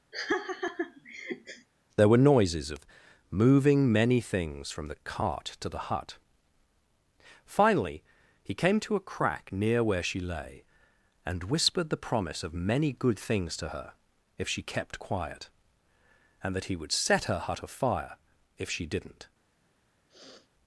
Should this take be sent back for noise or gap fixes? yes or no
yes